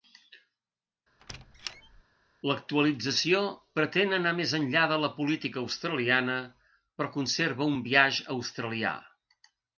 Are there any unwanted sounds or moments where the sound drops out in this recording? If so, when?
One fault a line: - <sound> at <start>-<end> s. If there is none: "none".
- squeak at 1.2-2.0 s